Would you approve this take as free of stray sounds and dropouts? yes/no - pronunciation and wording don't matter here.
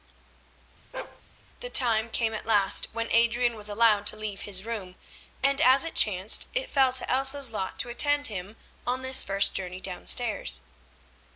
no